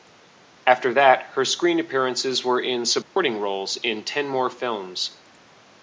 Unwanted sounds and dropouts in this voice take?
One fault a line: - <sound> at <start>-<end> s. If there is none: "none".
- dropout at 3.0-3.2 s